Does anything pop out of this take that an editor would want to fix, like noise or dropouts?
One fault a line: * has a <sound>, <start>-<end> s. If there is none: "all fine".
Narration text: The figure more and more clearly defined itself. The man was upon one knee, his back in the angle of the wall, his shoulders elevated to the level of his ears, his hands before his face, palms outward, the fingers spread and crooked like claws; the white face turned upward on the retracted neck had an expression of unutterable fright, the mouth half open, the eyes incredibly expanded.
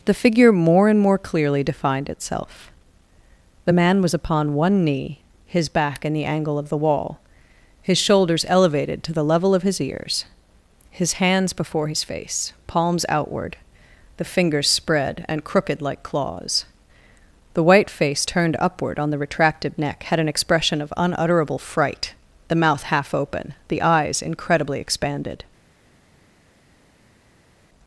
all fine